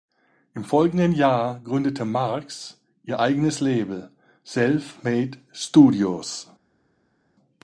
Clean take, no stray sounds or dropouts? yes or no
yes